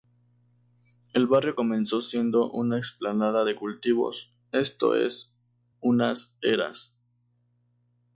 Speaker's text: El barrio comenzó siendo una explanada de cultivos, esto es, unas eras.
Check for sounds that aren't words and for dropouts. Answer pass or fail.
pass